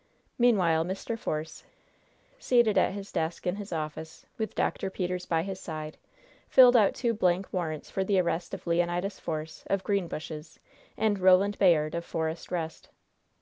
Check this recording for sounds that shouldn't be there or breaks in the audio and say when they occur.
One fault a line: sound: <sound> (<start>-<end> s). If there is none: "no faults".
no faults